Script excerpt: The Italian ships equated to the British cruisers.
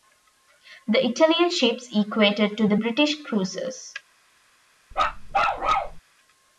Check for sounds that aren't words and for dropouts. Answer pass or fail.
fail